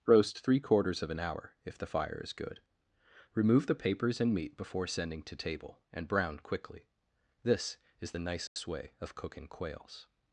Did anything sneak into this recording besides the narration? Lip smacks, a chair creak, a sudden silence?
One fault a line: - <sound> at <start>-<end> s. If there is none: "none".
- dropout at 8.5-8.6 s